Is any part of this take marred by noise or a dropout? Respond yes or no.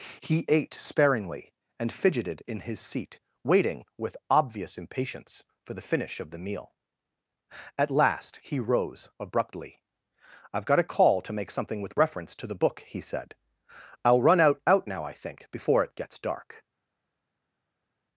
no